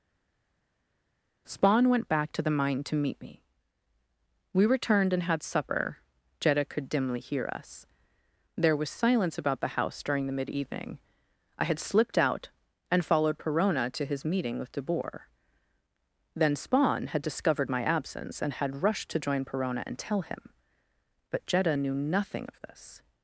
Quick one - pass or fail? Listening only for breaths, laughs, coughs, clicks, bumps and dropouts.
pass